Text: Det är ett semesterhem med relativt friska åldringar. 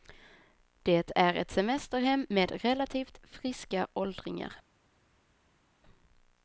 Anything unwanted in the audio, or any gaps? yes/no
no